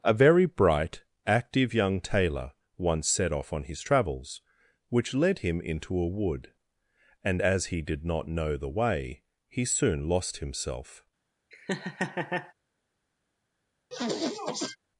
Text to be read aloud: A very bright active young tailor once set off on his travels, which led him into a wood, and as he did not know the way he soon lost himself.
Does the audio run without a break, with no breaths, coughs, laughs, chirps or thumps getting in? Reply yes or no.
no